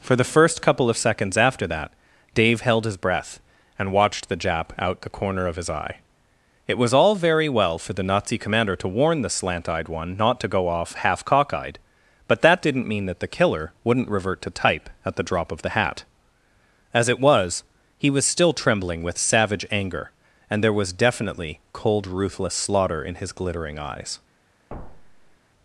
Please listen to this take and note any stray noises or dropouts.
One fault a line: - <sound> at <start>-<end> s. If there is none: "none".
- thud at 24.7-25.4 s